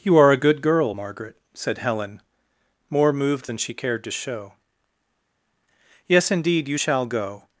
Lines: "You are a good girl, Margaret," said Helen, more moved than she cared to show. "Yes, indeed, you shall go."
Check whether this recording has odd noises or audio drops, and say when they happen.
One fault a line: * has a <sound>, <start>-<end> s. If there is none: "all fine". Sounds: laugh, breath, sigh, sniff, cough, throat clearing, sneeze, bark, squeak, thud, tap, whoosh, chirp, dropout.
all fine